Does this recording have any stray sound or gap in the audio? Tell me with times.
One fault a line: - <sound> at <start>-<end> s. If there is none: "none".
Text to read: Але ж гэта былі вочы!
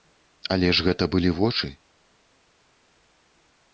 none